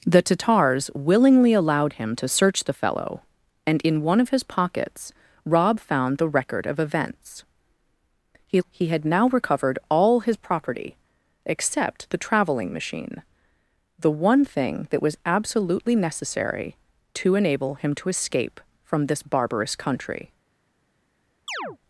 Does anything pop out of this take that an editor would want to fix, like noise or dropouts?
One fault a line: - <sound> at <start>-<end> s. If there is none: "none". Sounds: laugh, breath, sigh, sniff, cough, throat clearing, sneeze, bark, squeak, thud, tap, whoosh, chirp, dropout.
- chirp at 21.5-21.8 s